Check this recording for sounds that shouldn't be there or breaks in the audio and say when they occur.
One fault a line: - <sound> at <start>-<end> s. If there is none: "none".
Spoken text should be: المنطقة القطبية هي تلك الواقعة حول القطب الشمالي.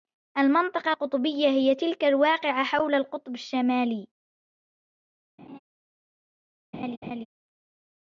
- laugh at 5.4-5.6 s
- laugh at 6.7-7.3 s